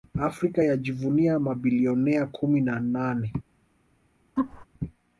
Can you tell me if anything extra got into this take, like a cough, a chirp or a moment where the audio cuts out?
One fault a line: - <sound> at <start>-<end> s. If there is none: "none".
- laugh at 4.4-4.7 s